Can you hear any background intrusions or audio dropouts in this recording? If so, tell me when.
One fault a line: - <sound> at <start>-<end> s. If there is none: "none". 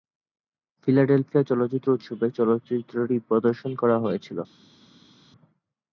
none